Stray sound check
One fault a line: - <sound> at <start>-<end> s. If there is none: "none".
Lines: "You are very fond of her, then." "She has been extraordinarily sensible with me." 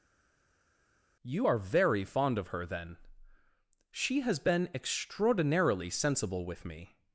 none